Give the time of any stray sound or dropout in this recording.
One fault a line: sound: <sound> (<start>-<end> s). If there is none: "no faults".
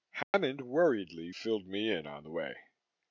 sound: dropout (0.2-0.3 s)